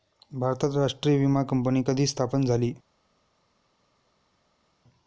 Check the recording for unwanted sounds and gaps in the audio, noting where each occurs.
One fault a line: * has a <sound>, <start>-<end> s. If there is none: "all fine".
all fine